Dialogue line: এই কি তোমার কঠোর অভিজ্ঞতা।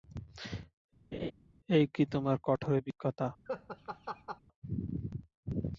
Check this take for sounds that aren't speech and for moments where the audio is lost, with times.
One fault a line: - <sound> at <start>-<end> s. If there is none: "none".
- laugh at 1.1-1.3 s
- laugh at 3.5-4.4 s